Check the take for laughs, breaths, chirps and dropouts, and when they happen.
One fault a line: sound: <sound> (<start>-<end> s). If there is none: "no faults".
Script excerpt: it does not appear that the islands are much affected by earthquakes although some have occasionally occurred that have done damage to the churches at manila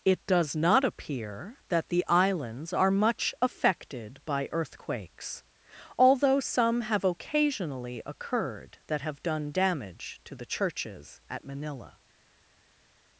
no faults